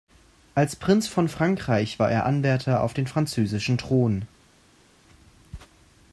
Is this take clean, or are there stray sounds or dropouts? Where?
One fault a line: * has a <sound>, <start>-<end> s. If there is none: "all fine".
all fine